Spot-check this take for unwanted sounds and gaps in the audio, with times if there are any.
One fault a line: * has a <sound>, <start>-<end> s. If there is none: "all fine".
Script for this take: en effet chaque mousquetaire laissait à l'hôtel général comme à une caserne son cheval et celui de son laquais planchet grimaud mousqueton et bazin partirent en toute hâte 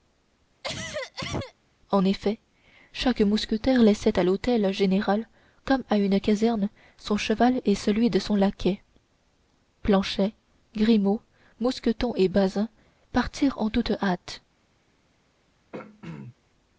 * has a cough, 0.6-1.5 s
* has a throat clearing, 15.7-16.3 s